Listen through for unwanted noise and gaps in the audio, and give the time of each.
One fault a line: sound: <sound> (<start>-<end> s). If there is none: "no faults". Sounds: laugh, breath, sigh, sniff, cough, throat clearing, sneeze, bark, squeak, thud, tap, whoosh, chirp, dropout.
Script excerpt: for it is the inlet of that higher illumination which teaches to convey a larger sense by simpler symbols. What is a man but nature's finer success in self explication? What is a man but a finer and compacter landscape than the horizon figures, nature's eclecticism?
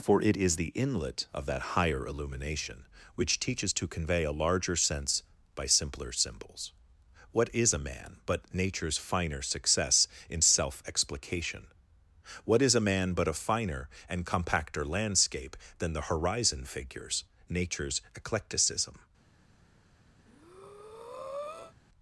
sound: breath (20.2-21.7 s)